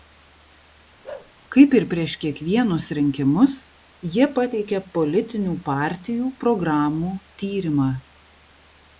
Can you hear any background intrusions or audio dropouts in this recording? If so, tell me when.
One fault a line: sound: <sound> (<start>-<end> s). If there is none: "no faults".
sound: bark (1.0-1.3 s)